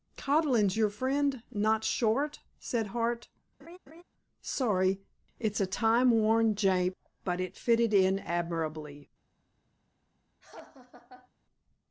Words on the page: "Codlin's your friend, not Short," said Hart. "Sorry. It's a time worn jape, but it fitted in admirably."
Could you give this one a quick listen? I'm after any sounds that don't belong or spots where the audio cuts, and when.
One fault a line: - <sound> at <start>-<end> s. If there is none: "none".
- laugh at 3.6-4.0 s
- laugh at 10.4-11.3 s